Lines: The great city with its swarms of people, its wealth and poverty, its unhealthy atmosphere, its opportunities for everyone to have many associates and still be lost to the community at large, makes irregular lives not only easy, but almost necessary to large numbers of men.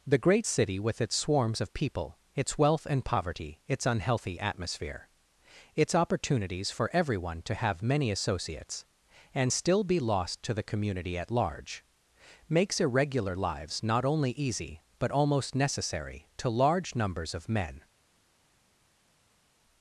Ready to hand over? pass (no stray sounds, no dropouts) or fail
pass